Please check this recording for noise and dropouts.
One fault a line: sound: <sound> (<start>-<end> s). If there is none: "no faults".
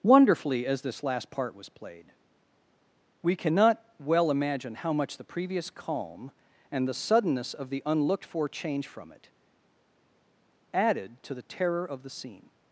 no faults